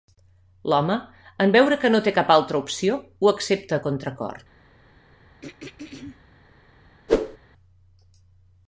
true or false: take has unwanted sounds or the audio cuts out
true